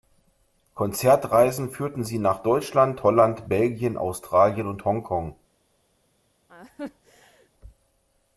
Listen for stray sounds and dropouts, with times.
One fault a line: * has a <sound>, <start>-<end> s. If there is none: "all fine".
* has a laugh, 6.5-7.5 s